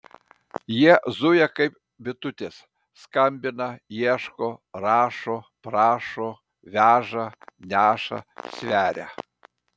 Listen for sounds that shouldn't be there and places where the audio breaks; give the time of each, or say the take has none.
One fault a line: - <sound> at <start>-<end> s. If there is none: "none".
none